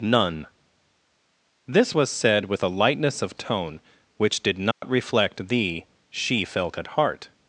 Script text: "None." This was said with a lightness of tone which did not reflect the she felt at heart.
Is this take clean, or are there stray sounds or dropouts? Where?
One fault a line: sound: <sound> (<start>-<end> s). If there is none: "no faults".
sound: dropout (4.7-4.8 s)